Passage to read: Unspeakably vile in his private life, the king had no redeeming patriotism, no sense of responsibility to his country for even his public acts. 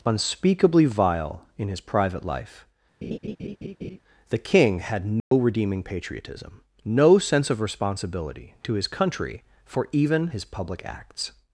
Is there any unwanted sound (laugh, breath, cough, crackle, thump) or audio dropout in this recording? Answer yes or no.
yes